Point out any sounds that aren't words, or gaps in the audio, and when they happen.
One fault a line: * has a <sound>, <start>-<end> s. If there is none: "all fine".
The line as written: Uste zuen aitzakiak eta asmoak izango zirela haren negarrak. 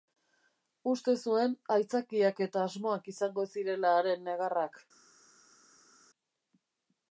all fine